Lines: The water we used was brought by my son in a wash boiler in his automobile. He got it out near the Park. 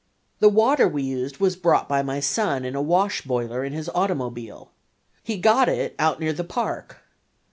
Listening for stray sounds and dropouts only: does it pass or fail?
pass